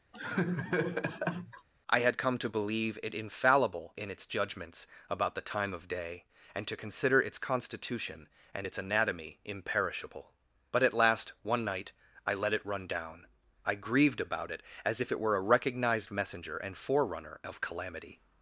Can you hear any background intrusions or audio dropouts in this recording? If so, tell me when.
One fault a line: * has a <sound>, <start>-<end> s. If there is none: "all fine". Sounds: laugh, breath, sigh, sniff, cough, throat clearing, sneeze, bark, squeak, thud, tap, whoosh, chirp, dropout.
* has a laugh, 0.1-1.7 s